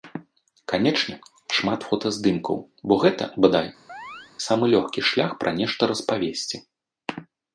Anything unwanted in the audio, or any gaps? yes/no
yes